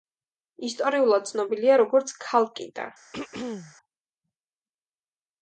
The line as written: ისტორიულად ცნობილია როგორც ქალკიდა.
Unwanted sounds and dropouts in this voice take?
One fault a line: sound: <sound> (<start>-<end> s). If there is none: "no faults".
sound: throat clearing (3.1-3.8 s)